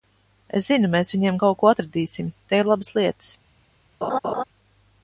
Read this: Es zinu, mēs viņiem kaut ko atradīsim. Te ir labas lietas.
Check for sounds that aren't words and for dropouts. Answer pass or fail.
fail